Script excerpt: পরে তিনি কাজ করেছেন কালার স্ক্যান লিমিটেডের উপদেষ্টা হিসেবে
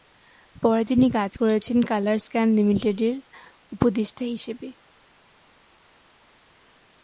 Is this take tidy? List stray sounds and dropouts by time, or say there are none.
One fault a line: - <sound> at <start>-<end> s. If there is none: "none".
none